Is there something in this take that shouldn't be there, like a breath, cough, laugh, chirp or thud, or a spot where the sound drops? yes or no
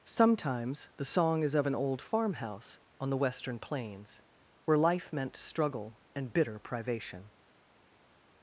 no